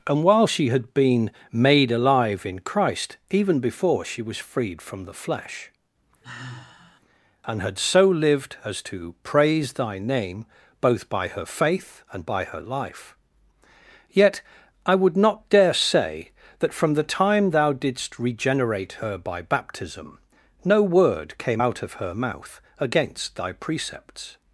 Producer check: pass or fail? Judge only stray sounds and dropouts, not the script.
fail